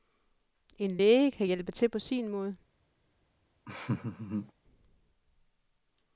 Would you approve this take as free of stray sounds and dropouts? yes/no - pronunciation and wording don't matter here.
no